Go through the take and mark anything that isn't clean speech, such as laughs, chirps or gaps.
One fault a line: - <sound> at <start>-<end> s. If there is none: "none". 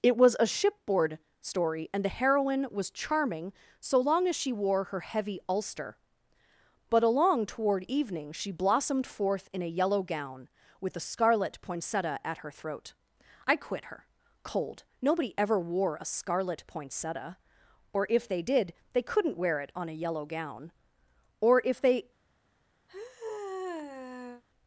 - sigh at 22.9-24.4 s